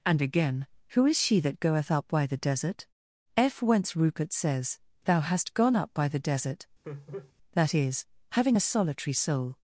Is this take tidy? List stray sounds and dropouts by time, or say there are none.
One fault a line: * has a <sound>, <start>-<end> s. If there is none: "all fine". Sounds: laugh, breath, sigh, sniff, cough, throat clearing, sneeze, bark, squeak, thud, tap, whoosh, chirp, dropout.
* has a laugh, 6.8-7.3 s